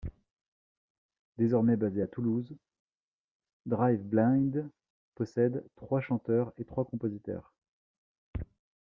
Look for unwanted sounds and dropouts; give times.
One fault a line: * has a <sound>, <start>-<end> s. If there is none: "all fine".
all fine